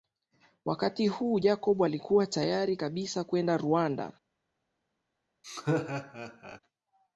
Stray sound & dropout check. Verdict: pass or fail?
fail